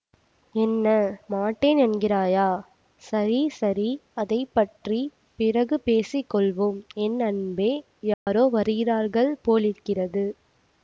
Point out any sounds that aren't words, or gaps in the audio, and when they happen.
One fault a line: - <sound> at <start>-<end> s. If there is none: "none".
- dropout at 8.1-8.3 s